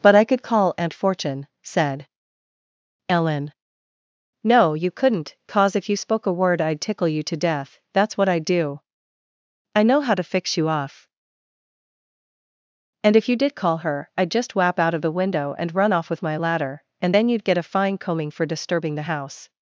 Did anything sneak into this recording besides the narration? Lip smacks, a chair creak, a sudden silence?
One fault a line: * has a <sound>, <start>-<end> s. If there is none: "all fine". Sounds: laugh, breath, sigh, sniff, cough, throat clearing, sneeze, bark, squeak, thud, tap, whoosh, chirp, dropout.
all fine